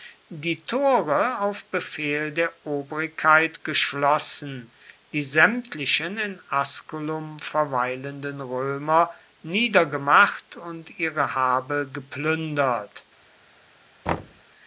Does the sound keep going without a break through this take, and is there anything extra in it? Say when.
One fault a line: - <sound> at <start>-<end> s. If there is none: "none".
- thud at 14.1-14.4 s